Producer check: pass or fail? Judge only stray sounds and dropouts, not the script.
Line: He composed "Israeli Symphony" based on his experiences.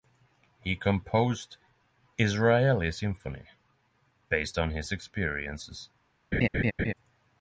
fail